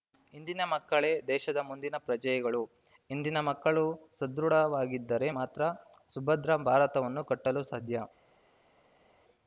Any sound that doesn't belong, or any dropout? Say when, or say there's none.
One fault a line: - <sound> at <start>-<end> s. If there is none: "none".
none